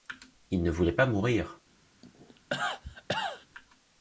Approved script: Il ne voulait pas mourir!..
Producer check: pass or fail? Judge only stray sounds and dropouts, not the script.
fail